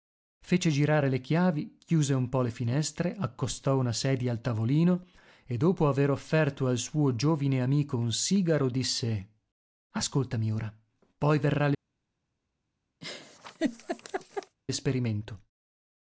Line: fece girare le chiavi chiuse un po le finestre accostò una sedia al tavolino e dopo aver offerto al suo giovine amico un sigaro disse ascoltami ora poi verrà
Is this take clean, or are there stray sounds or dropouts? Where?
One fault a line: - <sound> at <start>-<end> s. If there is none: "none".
- laugh at 13.0-14.6 s